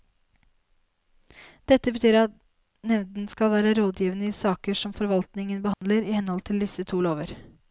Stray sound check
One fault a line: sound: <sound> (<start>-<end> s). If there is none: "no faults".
sound: dropout (5.7-5.8 s)